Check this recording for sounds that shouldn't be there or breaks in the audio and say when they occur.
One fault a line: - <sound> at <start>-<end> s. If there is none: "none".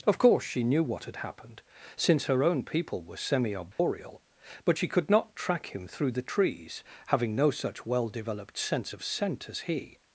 - dropout at 3.7-3.8 s